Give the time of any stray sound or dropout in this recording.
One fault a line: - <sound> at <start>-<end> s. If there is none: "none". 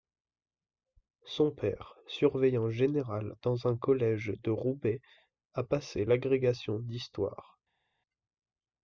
none